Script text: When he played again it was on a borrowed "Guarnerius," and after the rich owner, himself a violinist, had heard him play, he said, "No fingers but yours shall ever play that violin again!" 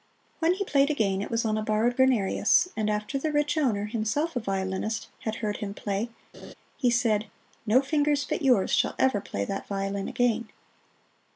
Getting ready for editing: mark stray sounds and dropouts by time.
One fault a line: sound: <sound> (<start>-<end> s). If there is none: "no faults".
sound: laugh (6.3-6.5 s)